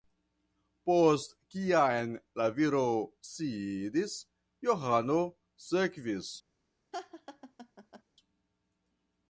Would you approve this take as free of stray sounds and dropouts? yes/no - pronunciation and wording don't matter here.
no